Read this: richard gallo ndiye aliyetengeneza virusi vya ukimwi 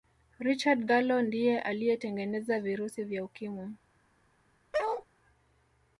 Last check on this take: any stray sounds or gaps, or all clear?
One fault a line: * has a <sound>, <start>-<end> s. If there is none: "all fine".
* has a bark, 4.7-5.1 s